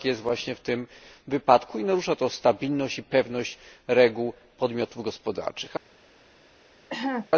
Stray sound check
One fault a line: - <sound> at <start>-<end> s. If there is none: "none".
- cough at 6.9-7.3 s